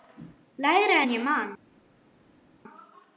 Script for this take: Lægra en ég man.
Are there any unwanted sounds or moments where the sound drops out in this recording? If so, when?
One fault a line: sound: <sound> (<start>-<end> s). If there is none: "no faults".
no faults